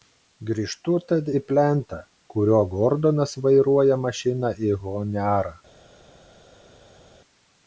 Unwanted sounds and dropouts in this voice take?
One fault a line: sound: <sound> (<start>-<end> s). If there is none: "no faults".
no faults